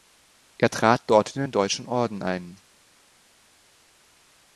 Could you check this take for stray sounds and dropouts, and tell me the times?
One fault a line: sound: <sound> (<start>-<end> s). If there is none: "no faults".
no faults